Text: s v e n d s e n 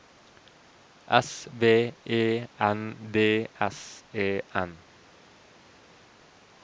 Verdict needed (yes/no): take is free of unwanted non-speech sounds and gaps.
yes